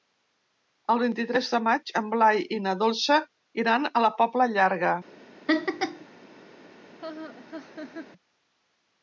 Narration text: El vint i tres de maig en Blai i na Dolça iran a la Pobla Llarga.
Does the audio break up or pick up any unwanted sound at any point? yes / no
yes